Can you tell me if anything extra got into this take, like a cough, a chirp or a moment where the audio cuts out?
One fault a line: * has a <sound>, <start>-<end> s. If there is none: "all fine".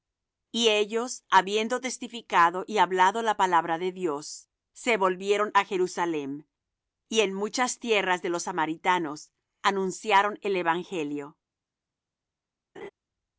* has a laugh, 12.8-12.9 s